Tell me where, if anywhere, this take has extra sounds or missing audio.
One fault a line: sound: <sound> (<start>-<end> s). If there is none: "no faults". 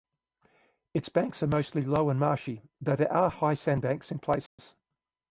sound: dropout (4.5-4.6 s)